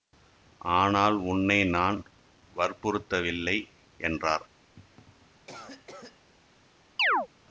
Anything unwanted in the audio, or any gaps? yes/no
yes